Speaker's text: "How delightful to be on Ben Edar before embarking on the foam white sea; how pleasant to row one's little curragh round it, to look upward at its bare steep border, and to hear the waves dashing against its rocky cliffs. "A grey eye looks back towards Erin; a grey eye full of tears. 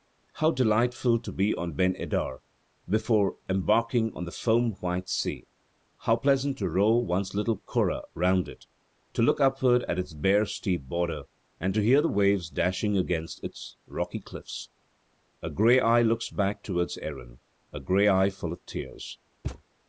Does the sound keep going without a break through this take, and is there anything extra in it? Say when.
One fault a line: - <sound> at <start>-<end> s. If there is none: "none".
- thud at 19.4-19.6 s